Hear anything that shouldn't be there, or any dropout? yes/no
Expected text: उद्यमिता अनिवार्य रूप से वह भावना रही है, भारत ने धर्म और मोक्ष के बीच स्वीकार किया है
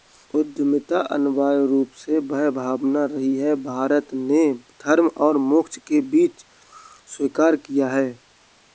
no